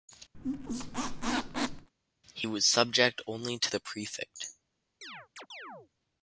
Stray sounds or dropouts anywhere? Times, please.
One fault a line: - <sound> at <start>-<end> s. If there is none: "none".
- squeak at 0.3-1.9 s
- chirp at 5.0-5.9 s